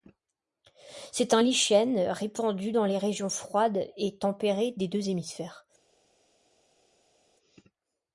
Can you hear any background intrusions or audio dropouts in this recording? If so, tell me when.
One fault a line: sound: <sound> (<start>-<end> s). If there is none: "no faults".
no faults